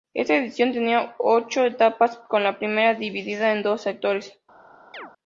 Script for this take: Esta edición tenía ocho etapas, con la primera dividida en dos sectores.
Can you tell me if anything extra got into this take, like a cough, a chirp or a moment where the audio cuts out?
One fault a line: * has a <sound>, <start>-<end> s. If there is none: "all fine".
* has a chirp, 4.9-5.1 s